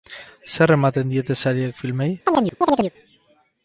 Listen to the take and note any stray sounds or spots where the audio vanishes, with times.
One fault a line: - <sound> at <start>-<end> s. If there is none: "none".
- chirp at 2.3-2.9 s